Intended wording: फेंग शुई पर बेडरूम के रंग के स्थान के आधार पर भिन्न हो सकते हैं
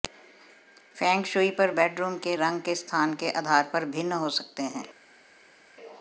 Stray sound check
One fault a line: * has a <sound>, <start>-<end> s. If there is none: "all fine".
all fine